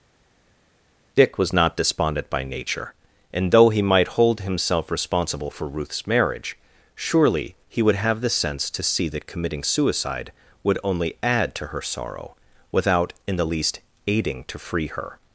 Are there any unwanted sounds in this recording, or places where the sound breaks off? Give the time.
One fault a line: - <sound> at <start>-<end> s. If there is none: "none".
none